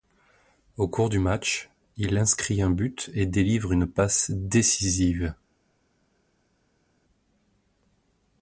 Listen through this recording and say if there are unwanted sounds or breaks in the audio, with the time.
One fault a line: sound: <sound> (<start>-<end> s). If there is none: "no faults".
no faults